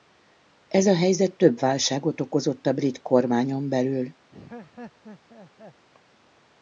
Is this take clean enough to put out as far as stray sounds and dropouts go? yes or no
no